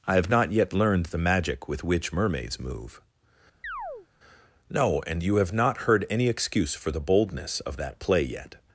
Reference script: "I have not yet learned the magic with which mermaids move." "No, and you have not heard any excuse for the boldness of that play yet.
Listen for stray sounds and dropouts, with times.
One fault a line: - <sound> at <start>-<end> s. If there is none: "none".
- chirp at 3.6-4.1 s